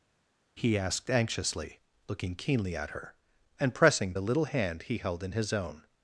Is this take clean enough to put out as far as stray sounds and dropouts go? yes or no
yes